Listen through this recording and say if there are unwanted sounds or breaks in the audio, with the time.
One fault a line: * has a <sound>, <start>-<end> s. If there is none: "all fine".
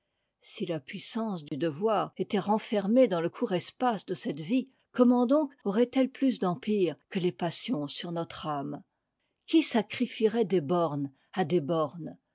* has a dropout, 1.5-1.5 s